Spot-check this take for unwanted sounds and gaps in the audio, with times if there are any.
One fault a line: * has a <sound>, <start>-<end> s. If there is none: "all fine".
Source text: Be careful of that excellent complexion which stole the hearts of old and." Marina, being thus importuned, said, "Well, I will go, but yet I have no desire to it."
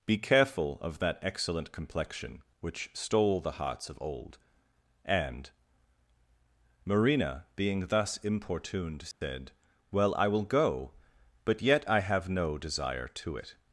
* has a dropout, 9.1-9.2 s